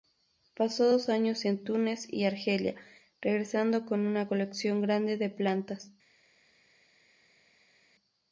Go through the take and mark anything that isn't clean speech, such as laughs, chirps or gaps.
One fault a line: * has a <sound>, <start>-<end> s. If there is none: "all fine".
all fine